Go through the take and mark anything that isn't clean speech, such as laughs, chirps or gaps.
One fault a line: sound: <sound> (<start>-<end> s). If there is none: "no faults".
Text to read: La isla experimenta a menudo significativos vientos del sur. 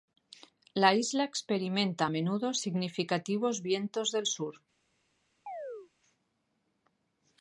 sound: chirp (5.5-5.9 s)